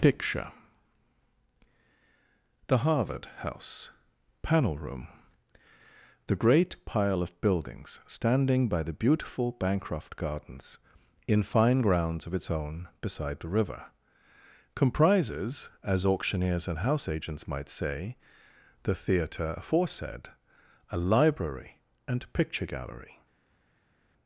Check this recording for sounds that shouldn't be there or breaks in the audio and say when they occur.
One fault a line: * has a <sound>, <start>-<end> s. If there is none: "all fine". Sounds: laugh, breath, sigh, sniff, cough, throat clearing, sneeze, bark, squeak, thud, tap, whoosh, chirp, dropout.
all fine